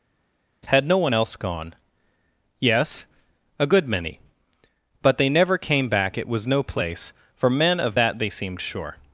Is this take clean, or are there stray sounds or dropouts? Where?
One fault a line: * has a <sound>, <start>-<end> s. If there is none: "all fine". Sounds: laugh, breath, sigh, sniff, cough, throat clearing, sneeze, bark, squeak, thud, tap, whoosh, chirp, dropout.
all fine